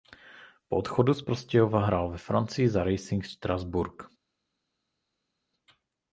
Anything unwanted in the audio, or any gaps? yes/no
no